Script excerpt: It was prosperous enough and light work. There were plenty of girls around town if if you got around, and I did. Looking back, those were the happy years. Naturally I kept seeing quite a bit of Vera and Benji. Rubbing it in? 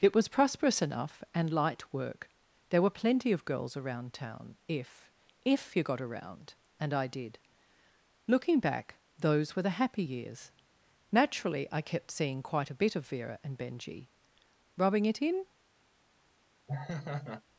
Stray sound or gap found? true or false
true